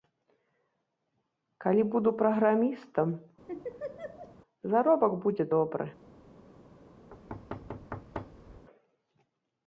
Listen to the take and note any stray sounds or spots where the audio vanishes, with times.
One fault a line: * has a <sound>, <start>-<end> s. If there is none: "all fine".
* has a laugh, 3.5-4.4 s
* has a thud, 7.1-8.7 s